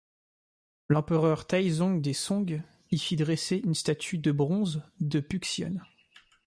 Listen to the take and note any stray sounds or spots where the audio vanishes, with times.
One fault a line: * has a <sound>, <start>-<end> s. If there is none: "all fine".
all fine